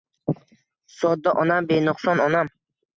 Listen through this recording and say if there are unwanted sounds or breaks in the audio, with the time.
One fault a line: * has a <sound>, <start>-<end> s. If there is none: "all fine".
all fine